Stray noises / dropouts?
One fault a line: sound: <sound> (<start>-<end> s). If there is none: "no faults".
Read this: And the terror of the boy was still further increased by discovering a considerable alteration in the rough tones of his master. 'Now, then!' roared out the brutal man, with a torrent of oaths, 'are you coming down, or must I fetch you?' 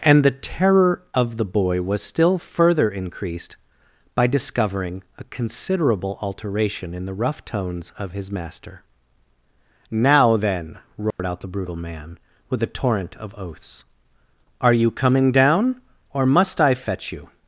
sound: dropout (11.1-11.2 s)